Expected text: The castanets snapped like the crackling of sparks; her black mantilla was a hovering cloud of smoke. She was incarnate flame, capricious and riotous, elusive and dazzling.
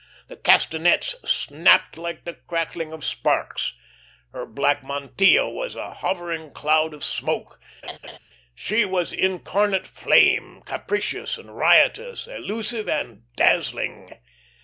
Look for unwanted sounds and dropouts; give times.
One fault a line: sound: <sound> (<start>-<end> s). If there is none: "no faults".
sound: laugh (7.8-8.2 s)